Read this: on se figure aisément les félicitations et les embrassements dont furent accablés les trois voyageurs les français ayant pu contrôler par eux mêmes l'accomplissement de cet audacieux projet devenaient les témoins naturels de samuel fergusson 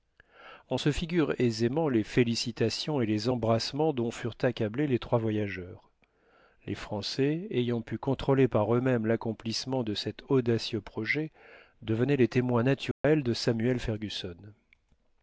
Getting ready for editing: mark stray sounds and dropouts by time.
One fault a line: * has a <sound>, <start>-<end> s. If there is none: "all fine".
* has a dropout, 12.9-13.0 s